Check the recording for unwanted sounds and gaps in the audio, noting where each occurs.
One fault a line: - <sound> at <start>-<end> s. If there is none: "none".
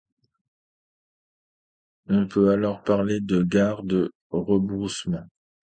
none